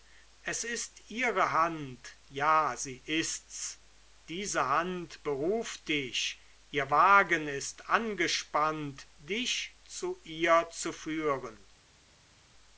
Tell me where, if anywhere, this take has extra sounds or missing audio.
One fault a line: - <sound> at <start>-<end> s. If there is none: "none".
none